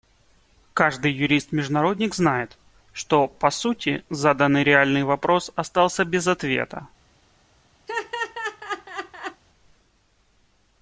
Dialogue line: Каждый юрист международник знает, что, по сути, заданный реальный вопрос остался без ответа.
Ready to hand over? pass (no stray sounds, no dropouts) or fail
fail